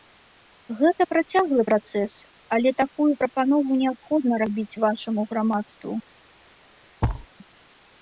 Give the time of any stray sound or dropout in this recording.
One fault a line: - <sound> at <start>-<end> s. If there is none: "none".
- thud at 7.0-7.3 s